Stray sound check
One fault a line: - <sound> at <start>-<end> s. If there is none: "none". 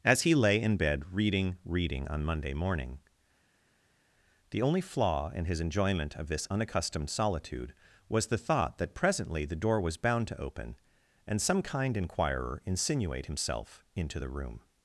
none